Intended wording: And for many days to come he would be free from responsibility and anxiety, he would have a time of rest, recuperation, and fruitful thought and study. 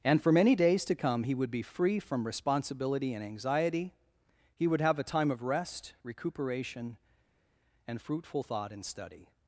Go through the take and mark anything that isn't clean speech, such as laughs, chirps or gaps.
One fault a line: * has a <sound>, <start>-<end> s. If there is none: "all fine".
all fine